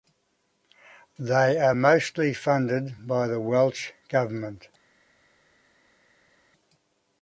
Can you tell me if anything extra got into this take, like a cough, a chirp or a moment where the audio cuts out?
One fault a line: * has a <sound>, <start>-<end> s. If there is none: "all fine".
all fine